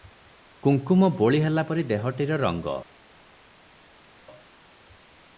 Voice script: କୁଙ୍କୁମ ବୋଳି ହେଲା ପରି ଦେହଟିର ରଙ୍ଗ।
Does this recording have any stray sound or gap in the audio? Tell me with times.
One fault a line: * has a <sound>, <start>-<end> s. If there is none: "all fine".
all fine